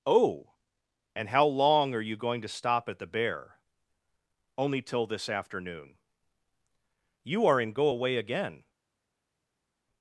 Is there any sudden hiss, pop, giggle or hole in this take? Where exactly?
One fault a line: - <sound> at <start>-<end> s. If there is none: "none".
none